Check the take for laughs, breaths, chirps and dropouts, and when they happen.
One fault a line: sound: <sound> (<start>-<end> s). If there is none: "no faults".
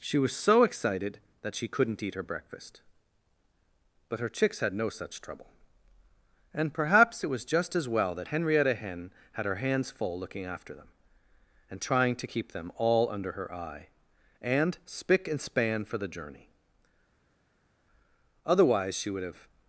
no faults